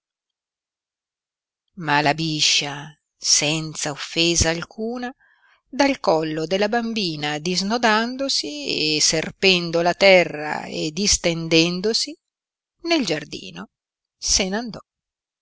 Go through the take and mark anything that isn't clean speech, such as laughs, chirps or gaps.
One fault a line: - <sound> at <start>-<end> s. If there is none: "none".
none